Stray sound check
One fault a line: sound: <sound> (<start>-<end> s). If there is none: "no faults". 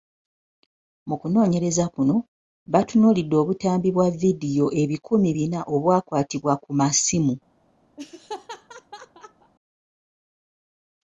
sound: laugh (8.0-9.5 s)